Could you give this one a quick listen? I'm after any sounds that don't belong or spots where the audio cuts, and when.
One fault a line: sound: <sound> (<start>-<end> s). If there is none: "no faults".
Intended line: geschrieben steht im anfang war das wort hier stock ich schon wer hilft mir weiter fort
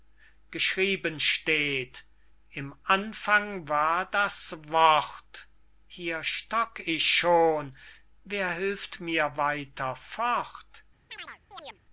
sound: chirp (11.1-11.8 s)